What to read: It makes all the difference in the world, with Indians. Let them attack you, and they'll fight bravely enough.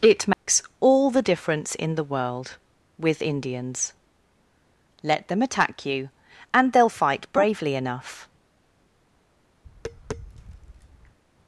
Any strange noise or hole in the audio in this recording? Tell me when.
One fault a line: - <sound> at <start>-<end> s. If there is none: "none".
- dropout at 0.3-0.5 s
- tap at 9.6-11.2 s